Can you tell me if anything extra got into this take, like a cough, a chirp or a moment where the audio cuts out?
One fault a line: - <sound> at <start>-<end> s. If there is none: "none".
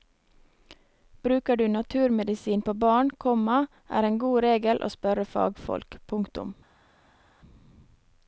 none